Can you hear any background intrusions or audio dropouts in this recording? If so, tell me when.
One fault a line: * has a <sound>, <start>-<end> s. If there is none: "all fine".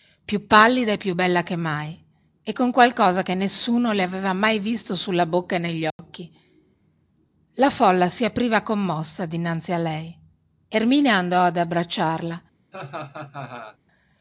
* has a dropout, 5.9-6.0 s
* has a laugh, 12.7-13.8 s